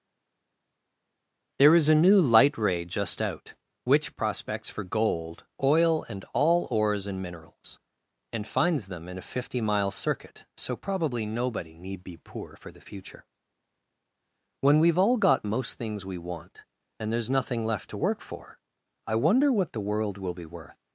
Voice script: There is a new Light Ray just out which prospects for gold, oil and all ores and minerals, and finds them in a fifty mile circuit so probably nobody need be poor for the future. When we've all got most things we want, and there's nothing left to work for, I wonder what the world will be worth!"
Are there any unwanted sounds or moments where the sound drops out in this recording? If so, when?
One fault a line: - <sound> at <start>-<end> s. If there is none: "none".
none